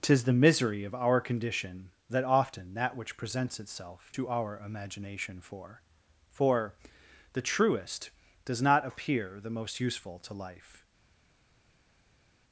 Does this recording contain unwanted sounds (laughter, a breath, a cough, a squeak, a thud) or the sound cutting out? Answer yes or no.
no